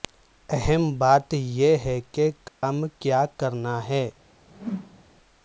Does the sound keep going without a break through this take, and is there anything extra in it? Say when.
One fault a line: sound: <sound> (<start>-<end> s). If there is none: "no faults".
sound: dropout (2.5-2.6 s)
sound: whoosh (4.5-5.0 s)